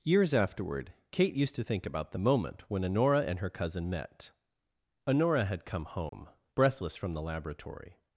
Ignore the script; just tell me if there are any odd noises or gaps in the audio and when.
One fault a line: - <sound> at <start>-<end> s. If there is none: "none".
- dropout at 6.1-6.1 s